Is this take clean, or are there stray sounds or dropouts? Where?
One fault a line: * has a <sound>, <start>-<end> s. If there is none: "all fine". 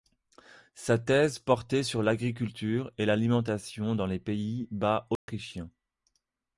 * has a dropout, 5.2-5.3 s